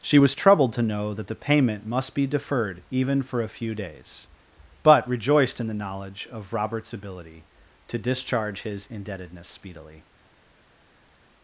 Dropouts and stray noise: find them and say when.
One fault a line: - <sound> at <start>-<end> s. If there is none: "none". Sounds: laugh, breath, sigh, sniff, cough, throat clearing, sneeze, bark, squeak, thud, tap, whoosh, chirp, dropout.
none